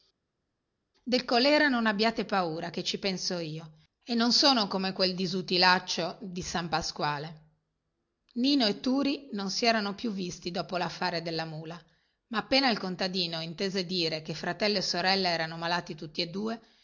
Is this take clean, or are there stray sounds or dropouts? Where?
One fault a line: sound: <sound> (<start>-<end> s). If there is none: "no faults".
no faults